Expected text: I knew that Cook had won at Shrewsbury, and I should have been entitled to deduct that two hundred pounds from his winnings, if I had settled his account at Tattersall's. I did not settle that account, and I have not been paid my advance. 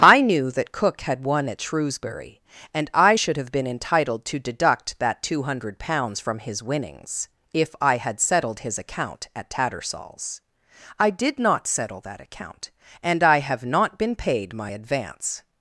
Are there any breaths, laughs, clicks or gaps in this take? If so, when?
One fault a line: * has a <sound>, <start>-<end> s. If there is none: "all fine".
all fine